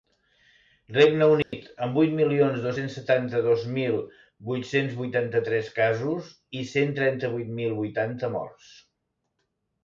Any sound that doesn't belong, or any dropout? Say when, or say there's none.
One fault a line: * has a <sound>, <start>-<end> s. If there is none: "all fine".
* has a dropout, 1.4-1.5 s